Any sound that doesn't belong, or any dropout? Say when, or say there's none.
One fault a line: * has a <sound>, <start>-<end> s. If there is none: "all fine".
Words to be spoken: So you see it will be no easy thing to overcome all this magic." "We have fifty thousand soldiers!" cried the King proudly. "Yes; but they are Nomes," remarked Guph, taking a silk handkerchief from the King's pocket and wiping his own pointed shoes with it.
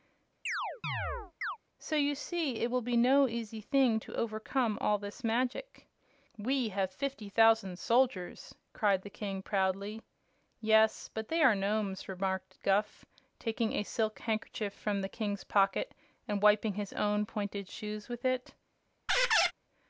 * has a chirp, 0.5-1.6 s
* has a squeak, 19.1-19.5 s